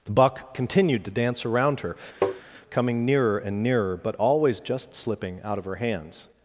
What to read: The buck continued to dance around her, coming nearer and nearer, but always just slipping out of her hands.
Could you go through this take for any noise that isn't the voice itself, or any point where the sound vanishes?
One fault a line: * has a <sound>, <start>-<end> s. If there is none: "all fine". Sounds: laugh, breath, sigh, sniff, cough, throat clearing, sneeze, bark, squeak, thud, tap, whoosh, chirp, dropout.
* has a tap, 2.2-2.4 s